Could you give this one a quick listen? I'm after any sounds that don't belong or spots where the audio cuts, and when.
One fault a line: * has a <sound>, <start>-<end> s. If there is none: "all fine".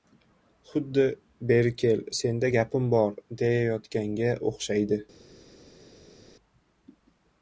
all fine